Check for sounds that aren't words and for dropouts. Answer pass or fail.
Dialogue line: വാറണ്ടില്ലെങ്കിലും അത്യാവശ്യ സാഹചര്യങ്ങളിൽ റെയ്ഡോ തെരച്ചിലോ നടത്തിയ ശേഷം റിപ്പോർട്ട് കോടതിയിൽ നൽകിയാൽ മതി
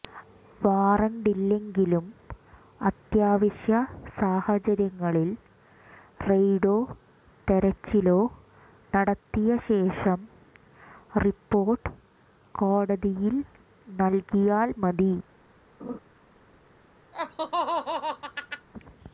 fail